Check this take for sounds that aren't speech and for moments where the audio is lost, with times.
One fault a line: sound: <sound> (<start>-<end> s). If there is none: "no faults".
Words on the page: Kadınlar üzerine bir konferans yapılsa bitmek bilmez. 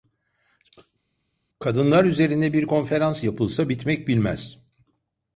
no faults